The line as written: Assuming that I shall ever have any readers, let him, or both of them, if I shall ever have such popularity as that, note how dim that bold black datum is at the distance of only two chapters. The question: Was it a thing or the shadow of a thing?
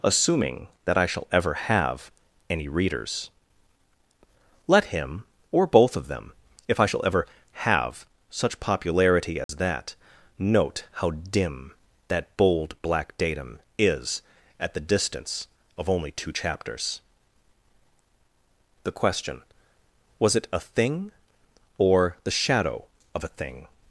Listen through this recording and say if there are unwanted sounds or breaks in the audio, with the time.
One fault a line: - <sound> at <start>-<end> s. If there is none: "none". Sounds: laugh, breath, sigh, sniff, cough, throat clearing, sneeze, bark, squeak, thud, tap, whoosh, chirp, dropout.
- dropout at 9.4-9.5 s